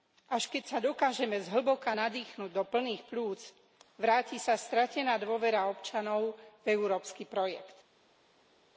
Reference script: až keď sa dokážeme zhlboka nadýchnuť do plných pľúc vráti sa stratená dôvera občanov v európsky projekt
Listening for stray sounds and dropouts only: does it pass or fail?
pass